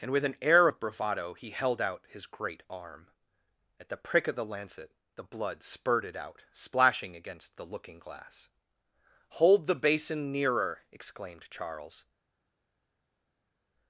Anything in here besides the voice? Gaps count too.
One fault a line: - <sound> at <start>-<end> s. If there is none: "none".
none